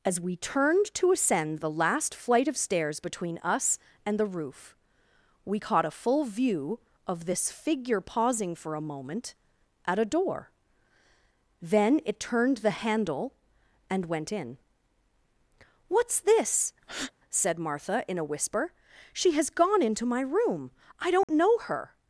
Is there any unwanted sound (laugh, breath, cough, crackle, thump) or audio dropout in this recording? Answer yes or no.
yes